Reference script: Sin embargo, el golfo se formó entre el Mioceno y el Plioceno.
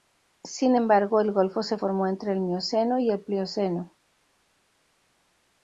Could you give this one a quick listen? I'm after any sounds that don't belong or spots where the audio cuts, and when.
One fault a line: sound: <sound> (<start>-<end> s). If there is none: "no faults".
no faults